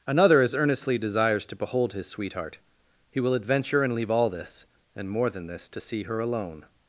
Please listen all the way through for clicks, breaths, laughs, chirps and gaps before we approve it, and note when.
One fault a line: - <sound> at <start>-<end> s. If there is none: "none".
none